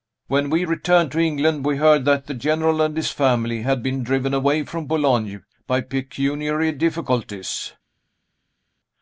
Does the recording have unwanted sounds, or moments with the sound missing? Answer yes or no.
no